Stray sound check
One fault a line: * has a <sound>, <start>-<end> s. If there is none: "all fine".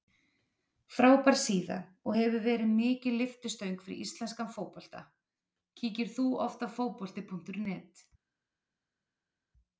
all fine